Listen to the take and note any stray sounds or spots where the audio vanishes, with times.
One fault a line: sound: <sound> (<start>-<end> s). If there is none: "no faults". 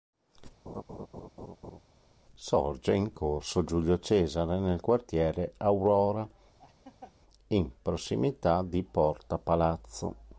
sound: laugh (0.7-1.8 s)
sound: laugh (6.6-7.1 s)